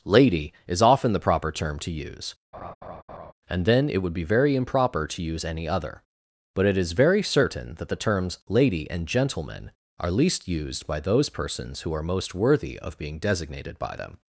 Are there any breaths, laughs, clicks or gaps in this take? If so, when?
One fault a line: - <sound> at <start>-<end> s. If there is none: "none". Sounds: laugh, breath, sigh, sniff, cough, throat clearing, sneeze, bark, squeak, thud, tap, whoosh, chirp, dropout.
- laugh at 2.5-3.3 s